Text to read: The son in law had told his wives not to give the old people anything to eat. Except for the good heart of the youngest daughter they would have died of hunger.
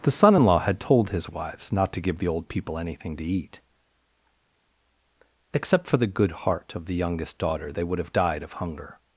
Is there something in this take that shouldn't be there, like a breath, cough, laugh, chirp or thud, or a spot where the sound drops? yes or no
no